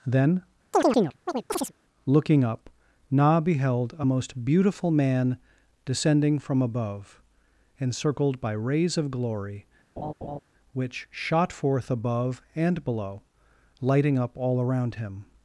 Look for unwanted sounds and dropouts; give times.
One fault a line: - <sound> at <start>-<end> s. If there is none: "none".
- chirp at 0.7-1.7 s
- laugh at 10.0-10.4 s